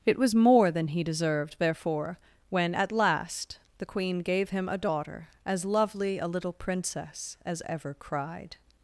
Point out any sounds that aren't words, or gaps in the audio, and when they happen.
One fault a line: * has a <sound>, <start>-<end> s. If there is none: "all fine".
all fine